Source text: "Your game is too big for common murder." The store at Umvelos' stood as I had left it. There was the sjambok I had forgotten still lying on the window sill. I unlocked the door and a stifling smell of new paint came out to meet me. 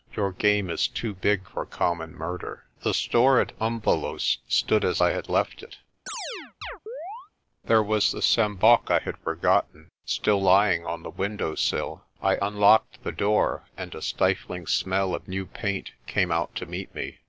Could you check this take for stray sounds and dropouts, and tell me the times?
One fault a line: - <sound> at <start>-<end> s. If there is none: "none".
- chirp at 6.1-7.3 s